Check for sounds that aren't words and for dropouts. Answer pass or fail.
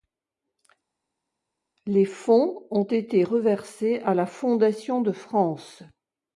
pass